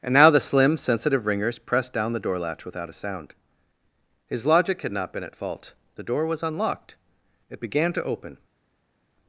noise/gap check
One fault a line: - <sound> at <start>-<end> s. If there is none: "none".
none